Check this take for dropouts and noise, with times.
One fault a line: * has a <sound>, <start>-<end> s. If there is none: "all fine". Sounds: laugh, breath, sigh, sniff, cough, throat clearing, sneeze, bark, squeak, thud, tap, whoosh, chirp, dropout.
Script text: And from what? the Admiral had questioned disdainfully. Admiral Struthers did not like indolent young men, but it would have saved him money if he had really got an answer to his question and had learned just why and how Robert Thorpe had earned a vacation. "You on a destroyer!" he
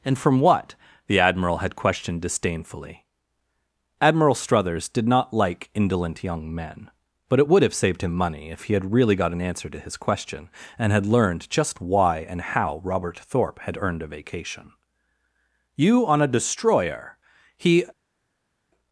all fine